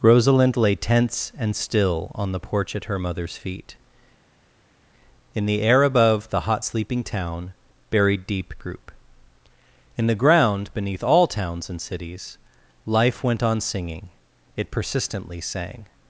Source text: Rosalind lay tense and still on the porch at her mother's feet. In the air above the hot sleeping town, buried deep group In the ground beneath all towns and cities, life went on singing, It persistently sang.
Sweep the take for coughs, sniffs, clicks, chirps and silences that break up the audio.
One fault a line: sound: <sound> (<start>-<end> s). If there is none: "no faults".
no faults